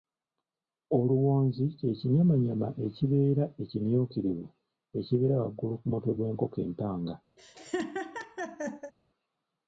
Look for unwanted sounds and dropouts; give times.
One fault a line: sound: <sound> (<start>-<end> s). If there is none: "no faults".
sound: laugh (7.4-8.9 s)